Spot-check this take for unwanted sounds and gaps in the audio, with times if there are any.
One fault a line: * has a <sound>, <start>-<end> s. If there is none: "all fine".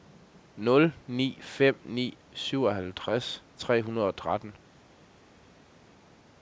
all fine